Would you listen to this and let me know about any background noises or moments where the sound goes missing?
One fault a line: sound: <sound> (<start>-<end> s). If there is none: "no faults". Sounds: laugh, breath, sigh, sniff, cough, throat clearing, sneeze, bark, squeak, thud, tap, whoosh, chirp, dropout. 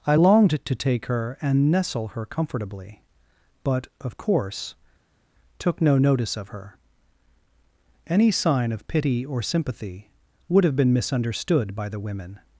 no faults